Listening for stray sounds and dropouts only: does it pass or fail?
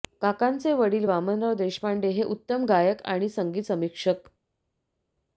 pass